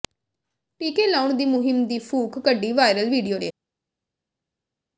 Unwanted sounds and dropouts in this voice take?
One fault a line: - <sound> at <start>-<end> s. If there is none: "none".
none